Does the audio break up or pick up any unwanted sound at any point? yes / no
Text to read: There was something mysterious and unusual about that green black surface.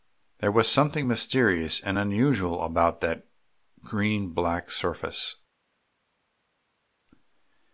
no